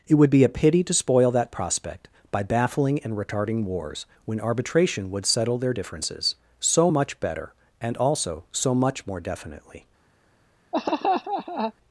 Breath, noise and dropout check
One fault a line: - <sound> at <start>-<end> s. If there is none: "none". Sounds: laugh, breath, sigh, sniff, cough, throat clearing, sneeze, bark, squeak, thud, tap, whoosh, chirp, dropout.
- laugh at 10.7-11.7 s